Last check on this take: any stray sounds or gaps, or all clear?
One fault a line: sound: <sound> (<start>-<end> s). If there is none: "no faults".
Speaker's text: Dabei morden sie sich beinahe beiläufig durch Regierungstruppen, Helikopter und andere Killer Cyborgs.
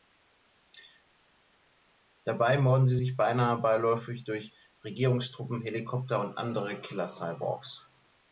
no faults